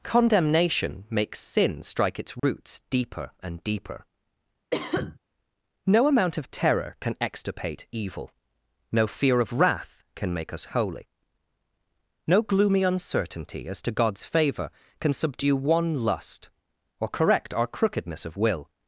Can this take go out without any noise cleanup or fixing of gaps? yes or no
no